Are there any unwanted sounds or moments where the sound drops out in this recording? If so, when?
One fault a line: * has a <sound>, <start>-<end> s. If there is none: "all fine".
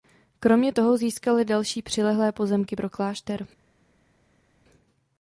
all fine